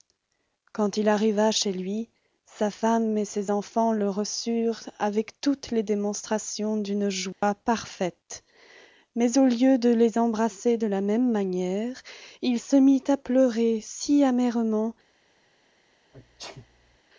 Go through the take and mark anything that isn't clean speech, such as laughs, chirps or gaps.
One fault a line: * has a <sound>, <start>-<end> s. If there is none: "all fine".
* has a dropout, 7.3-7.4 s
* has a sneeze, 16.1-17.0 s